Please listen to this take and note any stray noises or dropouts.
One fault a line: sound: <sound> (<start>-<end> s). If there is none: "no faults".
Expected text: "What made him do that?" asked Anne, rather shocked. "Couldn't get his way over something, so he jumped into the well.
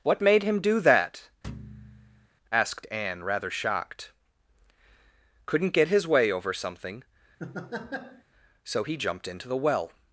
sound: thud (1.4-2.3 s)
sound: laugh (7.4-8.2 s)